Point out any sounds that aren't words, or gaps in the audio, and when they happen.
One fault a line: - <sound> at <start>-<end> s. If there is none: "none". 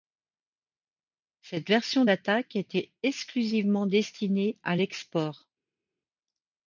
none